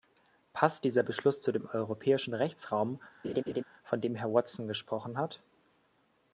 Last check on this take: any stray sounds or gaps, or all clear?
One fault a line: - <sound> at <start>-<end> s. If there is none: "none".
- laugh at 3.2-3.6 s